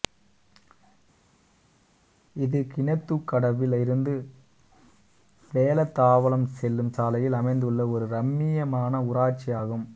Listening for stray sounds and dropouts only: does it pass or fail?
pass